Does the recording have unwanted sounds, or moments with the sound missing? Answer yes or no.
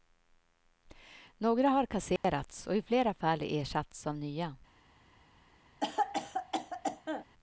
yes